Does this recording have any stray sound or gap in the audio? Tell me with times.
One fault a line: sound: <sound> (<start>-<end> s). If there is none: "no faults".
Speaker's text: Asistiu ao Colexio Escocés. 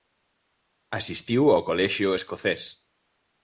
no faults